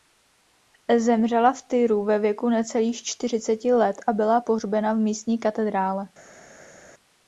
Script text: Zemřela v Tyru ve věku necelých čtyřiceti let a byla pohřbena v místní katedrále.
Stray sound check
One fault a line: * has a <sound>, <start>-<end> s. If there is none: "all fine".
all fine